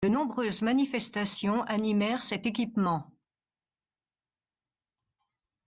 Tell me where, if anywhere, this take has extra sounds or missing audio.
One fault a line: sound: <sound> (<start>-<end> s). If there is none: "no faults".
no faults